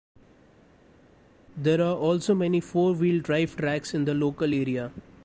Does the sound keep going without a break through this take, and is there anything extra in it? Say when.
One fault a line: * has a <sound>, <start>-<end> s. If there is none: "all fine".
all fine